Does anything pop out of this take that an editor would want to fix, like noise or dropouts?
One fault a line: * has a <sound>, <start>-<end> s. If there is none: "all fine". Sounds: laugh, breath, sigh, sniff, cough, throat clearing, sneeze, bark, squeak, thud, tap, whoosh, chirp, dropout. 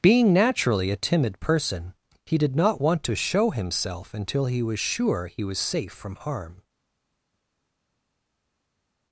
all fine